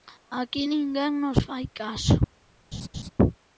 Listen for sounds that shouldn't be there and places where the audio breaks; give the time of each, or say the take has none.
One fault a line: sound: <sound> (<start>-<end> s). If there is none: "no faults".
sound: laugh (2.7-3.1 s)